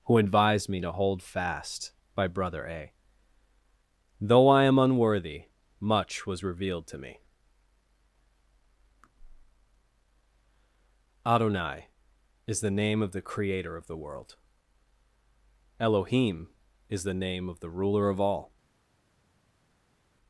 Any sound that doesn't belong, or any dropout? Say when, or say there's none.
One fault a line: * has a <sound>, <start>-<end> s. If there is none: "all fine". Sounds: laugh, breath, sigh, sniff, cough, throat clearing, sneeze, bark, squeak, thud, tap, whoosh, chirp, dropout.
all fine